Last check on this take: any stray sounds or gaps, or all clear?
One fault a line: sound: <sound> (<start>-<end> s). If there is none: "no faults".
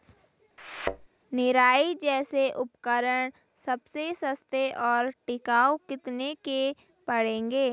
sound: thud (0.6-1.1 s)